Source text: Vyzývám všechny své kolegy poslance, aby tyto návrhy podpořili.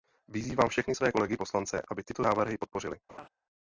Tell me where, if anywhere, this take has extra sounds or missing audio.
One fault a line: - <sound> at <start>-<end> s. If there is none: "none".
- laugh at 3.1-3.3 s